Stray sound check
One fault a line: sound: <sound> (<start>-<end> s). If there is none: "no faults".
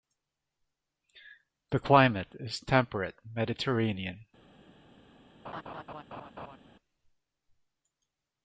sound: laugh (5.4-6.6 s)